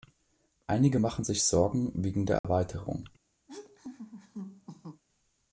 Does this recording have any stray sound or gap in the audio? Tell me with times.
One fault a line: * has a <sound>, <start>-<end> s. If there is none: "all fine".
* has a dropout, 2.4-2.4 s
* has a laugh, 3.5-5.0 s